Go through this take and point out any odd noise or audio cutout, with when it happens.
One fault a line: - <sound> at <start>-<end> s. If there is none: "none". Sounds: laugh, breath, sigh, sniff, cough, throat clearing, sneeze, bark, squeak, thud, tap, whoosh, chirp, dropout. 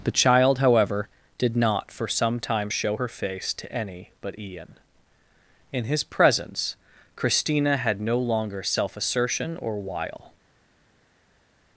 none